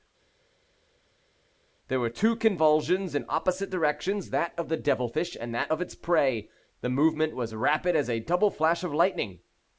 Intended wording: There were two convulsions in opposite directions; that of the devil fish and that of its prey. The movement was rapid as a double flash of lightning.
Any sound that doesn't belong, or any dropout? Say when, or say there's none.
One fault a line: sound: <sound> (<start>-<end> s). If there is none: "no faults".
no faults